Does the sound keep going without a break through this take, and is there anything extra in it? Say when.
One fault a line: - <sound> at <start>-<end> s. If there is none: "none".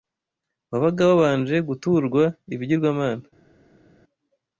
none